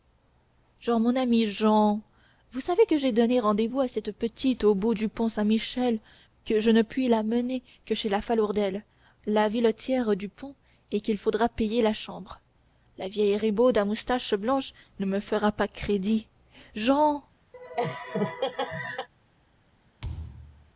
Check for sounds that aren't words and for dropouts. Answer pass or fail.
fail